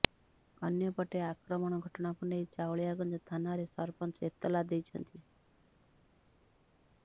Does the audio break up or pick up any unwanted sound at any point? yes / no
no